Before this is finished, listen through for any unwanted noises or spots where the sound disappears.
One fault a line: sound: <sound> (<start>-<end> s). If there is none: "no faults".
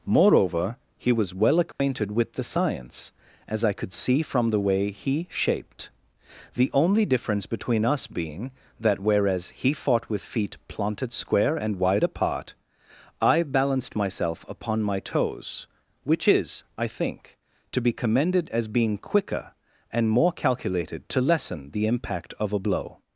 sound: dropout (1.7-1.8 s)